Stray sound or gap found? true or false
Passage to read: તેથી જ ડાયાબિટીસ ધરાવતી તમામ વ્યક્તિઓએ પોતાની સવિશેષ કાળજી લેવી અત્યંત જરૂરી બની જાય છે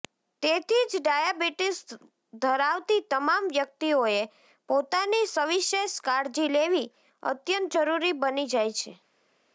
false